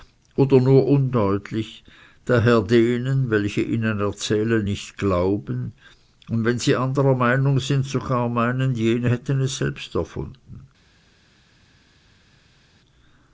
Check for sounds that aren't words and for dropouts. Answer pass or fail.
pass